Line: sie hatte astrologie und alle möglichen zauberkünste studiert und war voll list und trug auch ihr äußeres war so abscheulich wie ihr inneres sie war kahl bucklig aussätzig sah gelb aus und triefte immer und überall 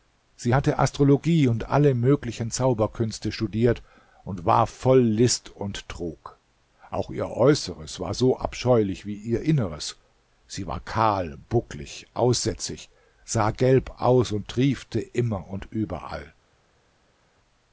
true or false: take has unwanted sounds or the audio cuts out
false